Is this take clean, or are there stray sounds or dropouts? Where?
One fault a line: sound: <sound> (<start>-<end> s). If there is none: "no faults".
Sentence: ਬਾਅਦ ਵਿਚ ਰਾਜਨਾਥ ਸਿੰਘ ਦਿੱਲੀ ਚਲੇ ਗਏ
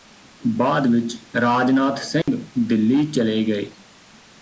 sound: dropout (2.2-2.3 s)